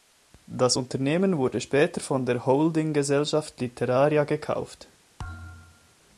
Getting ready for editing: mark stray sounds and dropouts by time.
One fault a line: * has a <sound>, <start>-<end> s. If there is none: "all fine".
* has a thud, 5.2-6.0 s